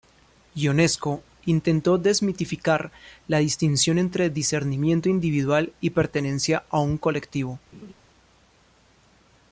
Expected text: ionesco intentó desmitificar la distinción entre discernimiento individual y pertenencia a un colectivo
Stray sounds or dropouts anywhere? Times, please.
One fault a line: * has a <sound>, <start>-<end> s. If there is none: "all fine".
* has a laugh, 7.7-7.9 s